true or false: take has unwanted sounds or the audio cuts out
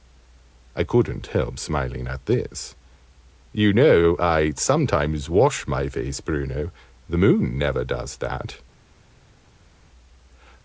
false